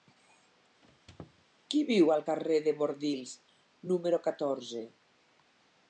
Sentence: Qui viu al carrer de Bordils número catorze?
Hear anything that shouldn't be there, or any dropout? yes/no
yes